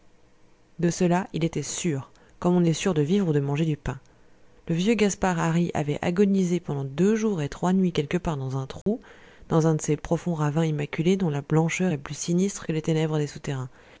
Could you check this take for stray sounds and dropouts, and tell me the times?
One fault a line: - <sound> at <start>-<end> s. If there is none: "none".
- dropout at 8.8-8.9 s